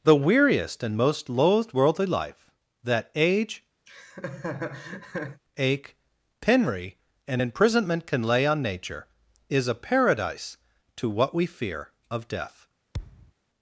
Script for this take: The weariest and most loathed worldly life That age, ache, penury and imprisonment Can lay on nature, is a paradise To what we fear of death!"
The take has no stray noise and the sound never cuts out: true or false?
false